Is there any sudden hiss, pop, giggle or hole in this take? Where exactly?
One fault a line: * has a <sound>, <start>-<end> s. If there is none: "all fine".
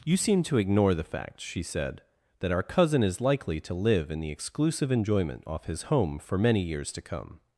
all fine